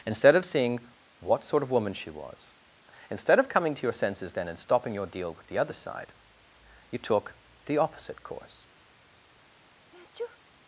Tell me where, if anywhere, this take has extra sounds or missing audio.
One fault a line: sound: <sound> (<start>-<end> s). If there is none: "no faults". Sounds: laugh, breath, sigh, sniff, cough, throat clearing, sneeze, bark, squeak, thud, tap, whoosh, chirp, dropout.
sound: sneeze (9.9-10.4 s)